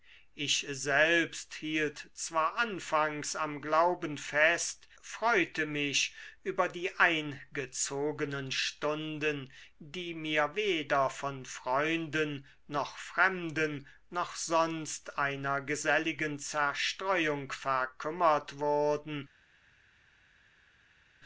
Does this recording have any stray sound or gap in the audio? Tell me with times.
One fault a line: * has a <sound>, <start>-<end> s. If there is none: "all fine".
all fine